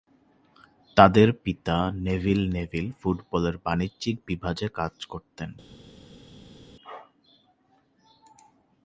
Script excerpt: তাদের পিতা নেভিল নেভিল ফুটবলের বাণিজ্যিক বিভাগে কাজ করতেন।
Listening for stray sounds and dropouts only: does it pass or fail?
pass